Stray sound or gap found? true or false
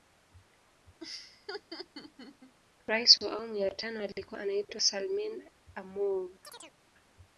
true